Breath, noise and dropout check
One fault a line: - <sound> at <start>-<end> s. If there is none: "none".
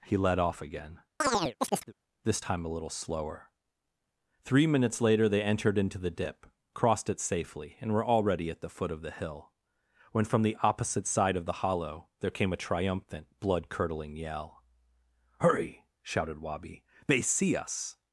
- chirp at 1.2-1.9 s